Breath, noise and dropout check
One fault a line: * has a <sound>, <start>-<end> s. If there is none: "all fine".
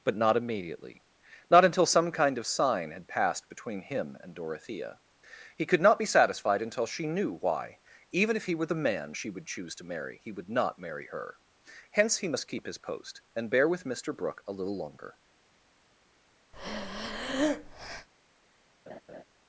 * has a breath, 16.5-18.1 s
* has a laugh, 18.9-19.2 s